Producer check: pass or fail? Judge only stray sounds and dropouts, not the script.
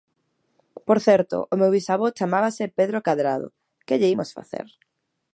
pass